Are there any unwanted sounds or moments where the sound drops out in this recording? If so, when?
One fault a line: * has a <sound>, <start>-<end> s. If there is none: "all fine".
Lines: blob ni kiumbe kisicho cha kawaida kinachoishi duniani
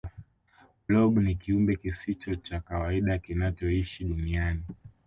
all fine